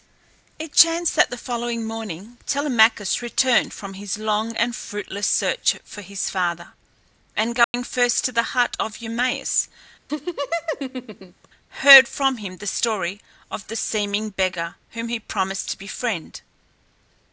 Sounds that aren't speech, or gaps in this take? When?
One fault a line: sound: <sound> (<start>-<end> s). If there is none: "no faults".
sound: dropout (7.6-7.7 s)
sound: laugh (10.1-11.5 s)